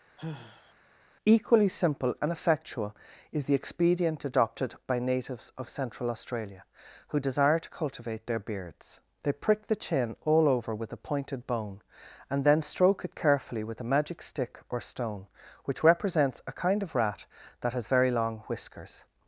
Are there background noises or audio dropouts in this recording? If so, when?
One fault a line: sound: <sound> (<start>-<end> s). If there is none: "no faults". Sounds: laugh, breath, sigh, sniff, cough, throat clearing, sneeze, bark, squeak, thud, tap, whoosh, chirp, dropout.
sound: sigh (0.2-0.7 s)